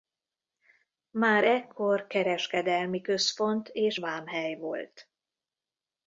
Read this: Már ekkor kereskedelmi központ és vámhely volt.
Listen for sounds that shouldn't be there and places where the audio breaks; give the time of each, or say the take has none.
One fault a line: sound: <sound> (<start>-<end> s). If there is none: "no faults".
no faults